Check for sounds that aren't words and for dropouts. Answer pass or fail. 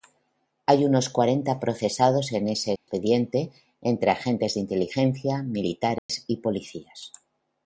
fail